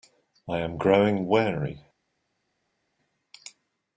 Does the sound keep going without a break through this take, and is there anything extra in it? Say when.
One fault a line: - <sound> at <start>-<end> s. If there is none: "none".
none